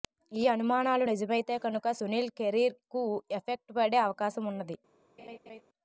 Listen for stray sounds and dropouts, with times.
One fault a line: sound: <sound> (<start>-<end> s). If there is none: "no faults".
sound: laugh (5.2-5.6 s)